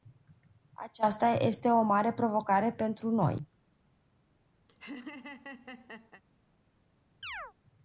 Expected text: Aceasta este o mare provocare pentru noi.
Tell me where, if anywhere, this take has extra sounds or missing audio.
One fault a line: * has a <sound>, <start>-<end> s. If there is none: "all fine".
* has a laugh, 4.7-6.2 s
* has a chirp, 7.2-7.5 s